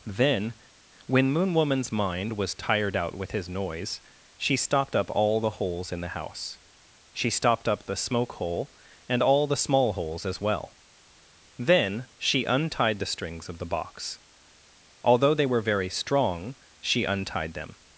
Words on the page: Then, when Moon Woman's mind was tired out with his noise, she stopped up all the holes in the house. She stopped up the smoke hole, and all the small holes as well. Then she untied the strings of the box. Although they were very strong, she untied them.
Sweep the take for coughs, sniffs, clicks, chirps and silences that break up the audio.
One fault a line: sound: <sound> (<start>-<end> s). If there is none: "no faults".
no faults